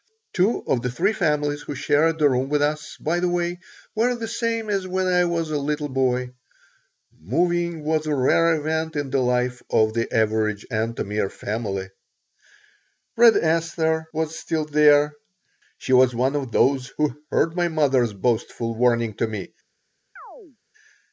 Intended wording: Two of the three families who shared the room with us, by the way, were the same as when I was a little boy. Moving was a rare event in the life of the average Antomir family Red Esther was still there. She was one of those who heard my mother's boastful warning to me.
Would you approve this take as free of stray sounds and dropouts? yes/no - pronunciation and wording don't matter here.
no